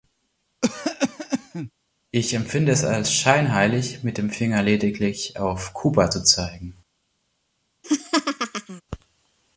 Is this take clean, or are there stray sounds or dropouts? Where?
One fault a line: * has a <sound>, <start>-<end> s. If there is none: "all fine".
* has a cough, 0.6-1.7 s
* has a laugh, 7.8-8.8 s